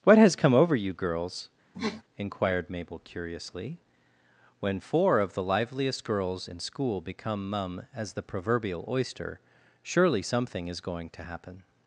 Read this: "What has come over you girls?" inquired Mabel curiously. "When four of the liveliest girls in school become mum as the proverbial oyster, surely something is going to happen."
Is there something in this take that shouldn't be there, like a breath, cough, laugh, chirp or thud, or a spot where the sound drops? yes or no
yes